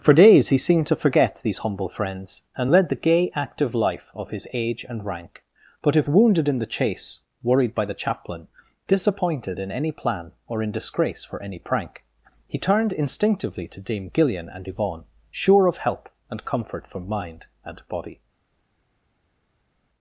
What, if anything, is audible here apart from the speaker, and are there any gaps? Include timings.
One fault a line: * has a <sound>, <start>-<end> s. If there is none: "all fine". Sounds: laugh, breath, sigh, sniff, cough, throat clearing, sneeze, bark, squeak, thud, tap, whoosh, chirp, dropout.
all fine